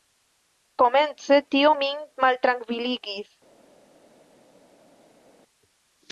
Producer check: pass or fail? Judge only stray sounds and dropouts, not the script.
pass